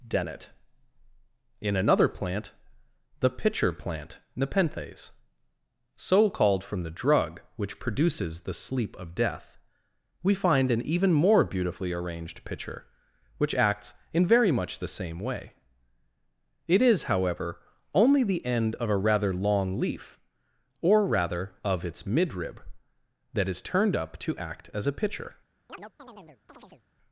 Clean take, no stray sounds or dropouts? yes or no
no